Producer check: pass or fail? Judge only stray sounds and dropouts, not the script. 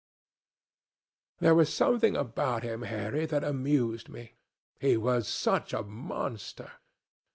pass